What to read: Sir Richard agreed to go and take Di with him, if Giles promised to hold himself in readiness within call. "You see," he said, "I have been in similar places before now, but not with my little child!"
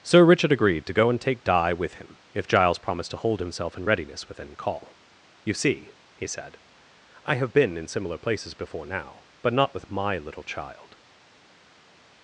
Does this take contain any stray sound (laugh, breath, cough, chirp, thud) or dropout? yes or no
no